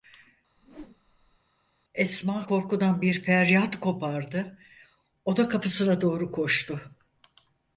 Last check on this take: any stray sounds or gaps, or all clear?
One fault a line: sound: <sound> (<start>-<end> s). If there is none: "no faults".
sound: whoosh (0.6-1.4 s)